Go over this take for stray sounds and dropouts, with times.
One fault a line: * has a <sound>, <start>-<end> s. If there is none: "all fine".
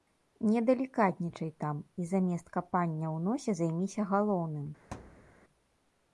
* has a thud, 4.9-5.3 s